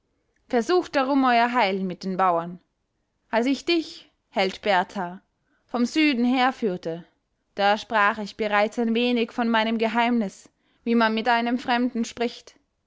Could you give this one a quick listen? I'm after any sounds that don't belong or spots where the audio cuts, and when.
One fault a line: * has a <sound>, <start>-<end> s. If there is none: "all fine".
all fine